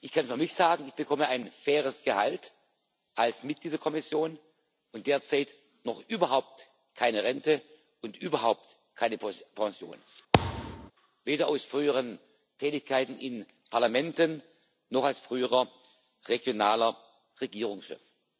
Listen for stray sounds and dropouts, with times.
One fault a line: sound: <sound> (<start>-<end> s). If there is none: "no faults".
sound: thud (10.3-10.9 s)